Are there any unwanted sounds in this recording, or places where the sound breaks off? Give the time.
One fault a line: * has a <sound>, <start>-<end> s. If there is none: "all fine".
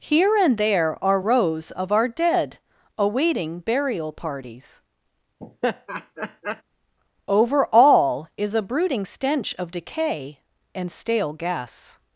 * has a laugh, 5.4-6.6 s